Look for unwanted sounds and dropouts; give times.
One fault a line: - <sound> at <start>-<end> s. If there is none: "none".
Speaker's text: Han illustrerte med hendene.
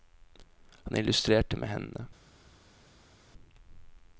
none